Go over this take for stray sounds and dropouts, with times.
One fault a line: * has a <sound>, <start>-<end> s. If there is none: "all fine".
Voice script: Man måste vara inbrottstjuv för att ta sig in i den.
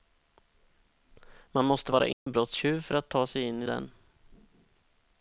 * has a dropout, 2.1-2.3 s